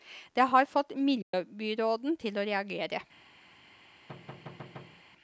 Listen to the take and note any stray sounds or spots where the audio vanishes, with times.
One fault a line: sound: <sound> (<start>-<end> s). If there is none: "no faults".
sound: dropout (1.2-1.3 s)
sound: thud (4.1-5.0 s)